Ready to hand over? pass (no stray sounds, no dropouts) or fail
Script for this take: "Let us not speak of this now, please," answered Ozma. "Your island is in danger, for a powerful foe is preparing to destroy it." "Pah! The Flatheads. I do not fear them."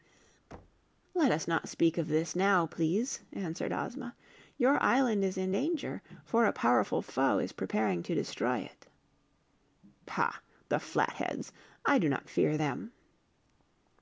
fail